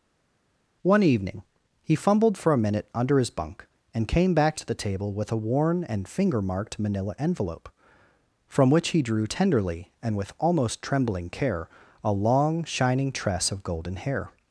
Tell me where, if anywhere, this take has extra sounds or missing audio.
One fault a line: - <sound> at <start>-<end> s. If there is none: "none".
none